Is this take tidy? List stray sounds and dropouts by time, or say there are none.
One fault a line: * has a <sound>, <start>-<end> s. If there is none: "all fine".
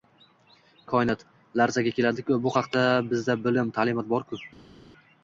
all fine